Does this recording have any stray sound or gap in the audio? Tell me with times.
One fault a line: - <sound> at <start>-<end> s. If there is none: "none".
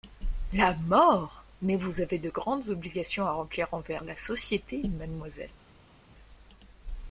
none